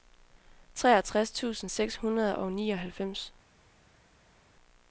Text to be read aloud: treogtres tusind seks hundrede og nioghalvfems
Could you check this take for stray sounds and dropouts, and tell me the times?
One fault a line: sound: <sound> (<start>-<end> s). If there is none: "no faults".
no faults